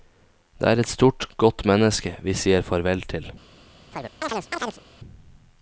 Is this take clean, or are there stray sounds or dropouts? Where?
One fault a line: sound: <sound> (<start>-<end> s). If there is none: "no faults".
sound: chirp (3.9-4.8 s)